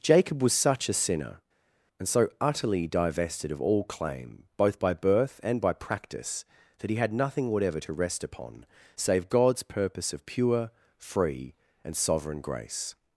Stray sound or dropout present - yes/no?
no